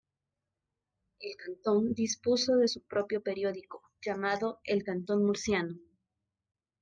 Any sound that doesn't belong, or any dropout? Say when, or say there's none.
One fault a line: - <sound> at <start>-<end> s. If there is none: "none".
none